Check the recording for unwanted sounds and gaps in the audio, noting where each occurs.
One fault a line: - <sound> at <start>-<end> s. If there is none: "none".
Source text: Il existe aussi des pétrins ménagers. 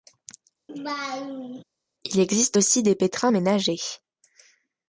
- laugh at 0.7-1.6 s